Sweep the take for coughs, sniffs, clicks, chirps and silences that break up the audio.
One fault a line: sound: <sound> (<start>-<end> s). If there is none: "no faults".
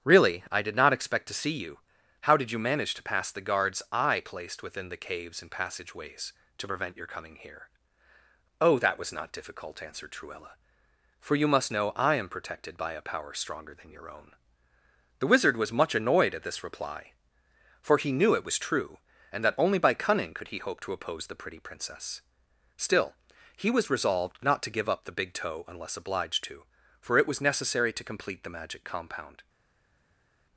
no faults